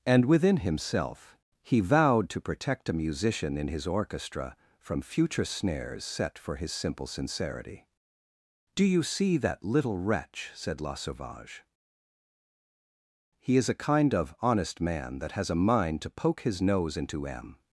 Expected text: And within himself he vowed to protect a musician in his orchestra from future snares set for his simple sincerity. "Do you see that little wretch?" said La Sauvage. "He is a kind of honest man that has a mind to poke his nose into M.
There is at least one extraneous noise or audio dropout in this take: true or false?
false